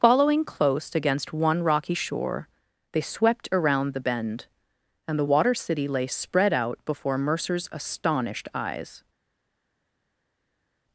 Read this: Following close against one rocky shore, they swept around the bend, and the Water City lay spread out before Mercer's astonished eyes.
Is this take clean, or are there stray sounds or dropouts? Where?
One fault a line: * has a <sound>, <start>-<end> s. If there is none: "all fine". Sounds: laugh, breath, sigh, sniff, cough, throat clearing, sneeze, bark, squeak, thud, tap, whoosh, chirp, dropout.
all fine